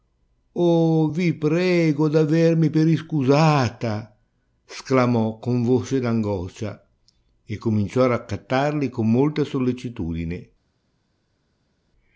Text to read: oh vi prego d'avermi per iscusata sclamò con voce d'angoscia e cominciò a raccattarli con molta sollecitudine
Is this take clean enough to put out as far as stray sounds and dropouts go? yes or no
yes